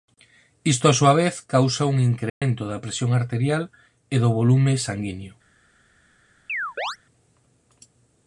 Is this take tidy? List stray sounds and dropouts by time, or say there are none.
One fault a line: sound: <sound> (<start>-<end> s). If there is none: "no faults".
sound: dropout (2.3-2.4 s)
sound: chirp (6.5-7.0 s)